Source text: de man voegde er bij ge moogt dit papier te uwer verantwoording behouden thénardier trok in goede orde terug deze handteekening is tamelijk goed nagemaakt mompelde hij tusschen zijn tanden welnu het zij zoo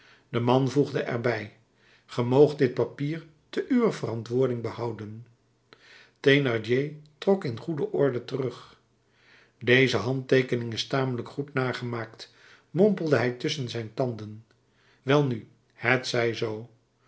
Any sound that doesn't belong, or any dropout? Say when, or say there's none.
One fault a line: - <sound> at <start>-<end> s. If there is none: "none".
none